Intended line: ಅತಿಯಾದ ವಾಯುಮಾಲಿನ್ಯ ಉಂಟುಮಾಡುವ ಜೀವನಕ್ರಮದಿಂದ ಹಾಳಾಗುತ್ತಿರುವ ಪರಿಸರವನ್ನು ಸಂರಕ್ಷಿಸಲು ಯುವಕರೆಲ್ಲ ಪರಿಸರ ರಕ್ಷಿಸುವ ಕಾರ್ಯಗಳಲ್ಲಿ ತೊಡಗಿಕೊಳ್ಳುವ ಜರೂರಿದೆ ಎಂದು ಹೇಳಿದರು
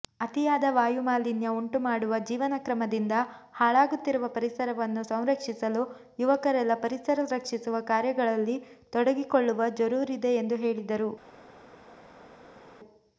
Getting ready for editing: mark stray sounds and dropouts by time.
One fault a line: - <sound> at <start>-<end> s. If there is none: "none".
none